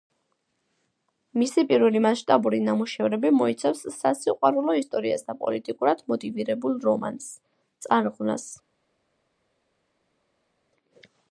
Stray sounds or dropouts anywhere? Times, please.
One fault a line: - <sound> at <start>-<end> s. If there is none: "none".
none